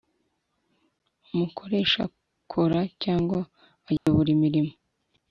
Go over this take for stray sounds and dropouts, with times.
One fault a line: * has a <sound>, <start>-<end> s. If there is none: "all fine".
* has a dropout, 4.0-4.1 s